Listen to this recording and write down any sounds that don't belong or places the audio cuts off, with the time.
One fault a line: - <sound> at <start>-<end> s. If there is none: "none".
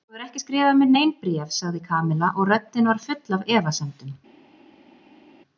none